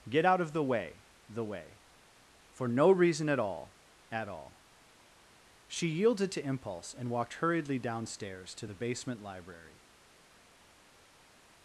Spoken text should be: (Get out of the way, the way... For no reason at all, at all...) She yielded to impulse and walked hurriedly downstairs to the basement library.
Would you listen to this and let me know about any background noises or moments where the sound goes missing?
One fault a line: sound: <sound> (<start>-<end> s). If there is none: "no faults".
no faults